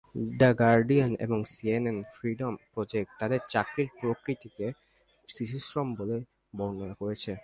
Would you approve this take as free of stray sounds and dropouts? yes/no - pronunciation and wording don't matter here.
yes